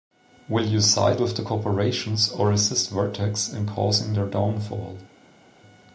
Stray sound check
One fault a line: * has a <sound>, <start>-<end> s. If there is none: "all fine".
all fine